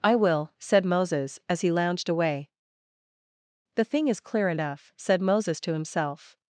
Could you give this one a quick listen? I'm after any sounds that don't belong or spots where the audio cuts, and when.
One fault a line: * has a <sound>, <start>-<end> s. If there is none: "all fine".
all fine